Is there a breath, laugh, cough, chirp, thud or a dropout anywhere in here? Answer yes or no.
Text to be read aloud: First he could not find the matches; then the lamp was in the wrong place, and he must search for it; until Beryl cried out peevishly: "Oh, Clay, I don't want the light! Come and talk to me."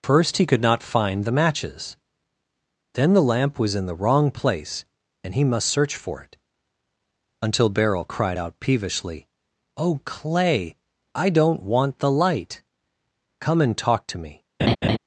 yes